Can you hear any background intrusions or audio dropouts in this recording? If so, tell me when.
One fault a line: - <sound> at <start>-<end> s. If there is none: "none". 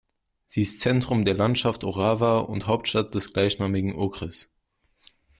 none